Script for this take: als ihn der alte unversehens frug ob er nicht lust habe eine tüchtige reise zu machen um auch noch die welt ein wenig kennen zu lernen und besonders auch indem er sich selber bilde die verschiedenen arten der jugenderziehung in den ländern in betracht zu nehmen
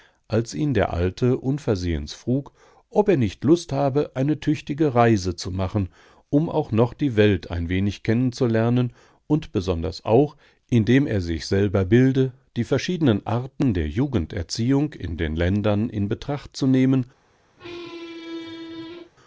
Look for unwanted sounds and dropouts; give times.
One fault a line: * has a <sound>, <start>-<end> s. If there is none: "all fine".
* has a squeak, 17.6-19.1 s